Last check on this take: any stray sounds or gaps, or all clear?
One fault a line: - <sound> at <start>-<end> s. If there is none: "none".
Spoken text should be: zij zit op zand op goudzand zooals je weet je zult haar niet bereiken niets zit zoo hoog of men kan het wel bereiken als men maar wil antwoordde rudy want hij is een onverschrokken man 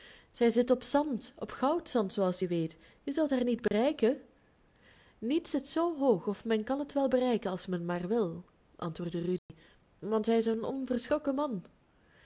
- dropout at 3.7-3.7 s
- dropout at 9.4-9.5 s